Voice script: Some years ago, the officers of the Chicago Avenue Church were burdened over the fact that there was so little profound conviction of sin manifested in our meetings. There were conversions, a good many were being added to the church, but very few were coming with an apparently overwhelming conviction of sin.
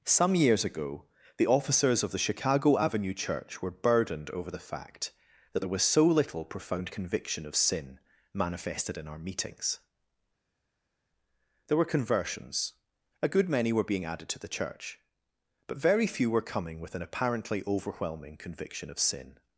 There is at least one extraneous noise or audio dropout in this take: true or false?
false